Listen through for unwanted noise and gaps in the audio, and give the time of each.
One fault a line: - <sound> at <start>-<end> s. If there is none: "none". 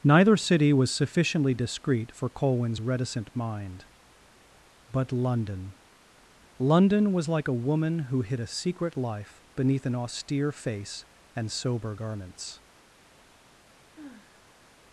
- sigh at 13.9-14.6 s